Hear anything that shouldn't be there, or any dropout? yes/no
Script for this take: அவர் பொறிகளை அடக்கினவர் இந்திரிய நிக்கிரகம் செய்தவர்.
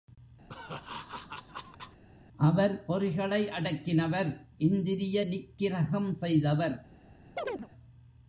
yes